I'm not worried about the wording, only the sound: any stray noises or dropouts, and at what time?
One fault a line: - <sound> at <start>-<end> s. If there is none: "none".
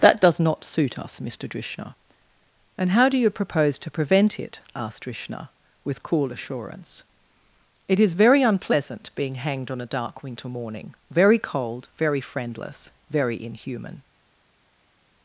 none